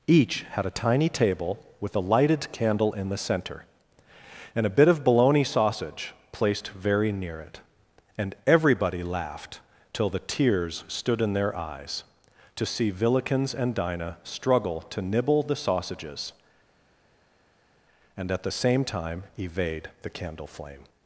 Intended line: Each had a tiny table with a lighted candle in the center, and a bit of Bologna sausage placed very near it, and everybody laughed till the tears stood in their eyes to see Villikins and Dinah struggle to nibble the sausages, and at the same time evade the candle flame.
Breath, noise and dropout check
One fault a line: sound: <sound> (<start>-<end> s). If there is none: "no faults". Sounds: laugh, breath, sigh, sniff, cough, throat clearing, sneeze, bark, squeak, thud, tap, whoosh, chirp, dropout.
no faults